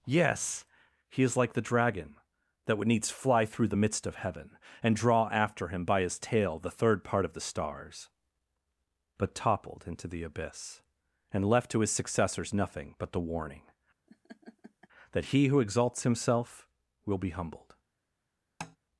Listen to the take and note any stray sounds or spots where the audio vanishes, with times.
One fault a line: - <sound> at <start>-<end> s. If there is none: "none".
- laugh at 14.1-14.9 s
- tap at 18.6-18.8 s